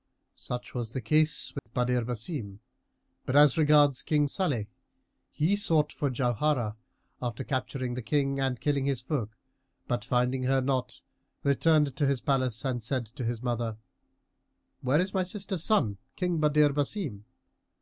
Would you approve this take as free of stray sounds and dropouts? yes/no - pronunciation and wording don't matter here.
no